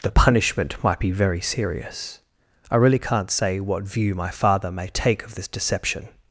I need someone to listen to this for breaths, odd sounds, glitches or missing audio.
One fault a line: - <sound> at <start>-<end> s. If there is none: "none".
none